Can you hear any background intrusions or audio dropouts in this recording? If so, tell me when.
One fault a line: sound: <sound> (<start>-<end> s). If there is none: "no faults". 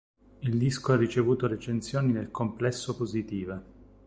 no faults